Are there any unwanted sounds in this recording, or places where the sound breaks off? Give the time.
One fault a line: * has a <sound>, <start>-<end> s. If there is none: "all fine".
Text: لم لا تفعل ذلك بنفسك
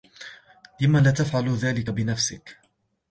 all fine